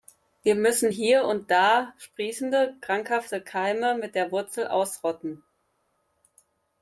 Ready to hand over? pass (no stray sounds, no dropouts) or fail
pass